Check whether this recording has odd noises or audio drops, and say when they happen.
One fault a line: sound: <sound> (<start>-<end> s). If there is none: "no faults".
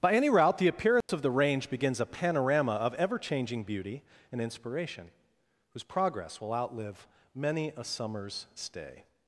sound: dropout (1.0-1.1 s)